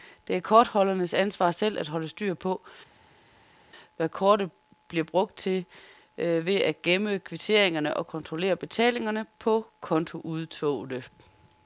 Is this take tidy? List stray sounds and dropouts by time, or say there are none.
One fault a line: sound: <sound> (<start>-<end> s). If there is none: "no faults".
no faults